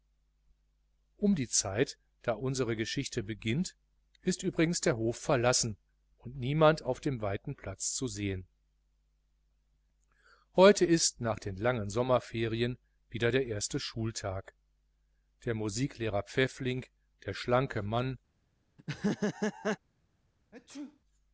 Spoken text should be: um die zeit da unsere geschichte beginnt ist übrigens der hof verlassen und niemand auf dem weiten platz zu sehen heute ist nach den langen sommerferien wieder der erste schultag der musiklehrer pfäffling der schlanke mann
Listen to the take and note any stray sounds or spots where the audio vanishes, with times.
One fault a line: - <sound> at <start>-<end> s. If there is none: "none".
- laugh at 18.8-19.8 s
- sneeze at 20.5-21.0 s